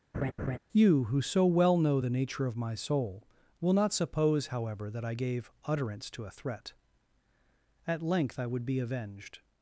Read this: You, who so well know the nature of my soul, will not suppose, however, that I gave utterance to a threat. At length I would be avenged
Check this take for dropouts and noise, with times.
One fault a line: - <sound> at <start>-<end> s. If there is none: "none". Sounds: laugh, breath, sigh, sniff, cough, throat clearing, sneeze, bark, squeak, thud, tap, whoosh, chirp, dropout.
- laugh at 0.1-0.6 s